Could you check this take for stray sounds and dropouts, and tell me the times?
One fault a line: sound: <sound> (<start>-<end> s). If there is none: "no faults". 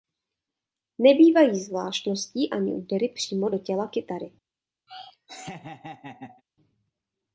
sound: laugh (4.9-6.4 s)